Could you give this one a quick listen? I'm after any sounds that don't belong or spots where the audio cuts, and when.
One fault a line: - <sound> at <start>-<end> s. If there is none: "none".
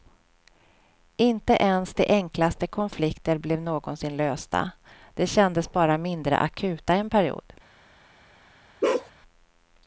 - bark at 8.8-9.1 s